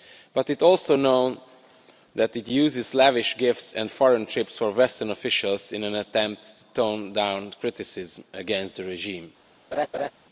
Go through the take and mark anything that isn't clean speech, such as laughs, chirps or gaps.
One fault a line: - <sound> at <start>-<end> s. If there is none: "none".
- laugh at 9.7-10.1 s